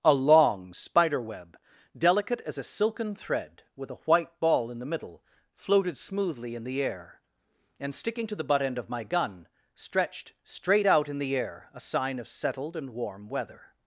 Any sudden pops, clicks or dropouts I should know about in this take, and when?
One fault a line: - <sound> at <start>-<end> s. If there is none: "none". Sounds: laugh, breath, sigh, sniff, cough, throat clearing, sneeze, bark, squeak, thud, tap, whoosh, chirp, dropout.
none